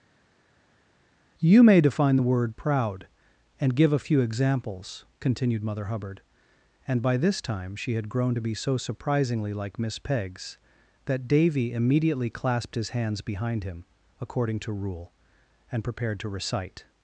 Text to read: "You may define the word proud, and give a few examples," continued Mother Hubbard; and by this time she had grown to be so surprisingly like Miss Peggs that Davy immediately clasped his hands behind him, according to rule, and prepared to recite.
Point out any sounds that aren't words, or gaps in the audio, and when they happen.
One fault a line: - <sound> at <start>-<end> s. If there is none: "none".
none